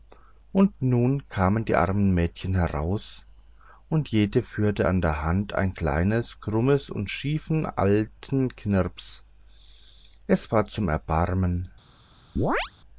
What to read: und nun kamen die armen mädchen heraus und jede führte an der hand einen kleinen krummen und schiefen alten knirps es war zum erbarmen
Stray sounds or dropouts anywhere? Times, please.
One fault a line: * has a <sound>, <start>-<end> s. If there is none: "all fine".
* has a chirp, 12.4-12.7 s